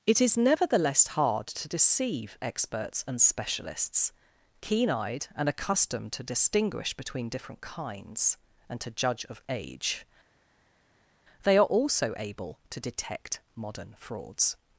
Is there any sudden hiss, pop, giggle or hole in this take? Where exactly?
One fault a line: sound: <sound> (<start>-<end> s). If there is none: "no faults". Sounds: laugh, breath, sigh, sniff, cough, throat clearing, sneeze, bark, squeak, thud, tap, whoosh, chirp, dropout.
no faults